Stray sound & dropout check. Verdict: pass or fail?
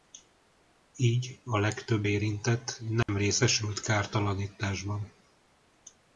fail